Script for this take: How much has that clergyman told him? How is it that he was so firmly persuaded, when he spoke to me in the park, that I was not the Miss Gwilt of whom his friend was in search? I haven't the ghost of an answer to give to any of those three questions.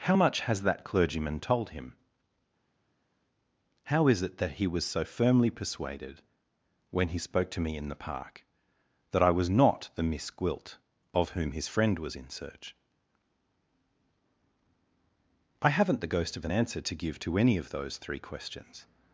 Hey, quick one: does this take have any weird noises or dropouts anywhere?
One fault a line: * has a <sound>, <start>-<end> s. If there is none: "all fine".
all fine